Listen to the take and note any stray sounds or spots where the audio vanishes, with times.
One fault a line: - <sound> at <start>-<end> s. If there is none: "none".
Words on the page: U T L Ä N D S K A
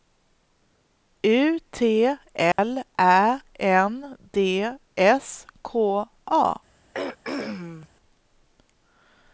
- dropout at 2.5-2.6 s
- throat clearing at 6.9-7.9 s